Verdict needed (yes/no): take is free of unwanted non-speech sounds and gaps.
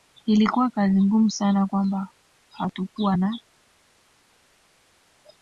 yes